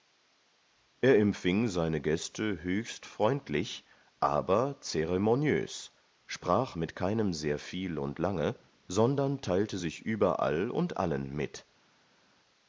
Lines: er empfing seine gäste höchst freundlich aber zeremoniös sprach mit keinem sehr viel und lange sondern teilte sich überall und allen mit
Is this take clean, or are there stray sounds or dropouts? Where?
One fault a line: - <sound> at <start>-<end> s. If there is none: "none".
none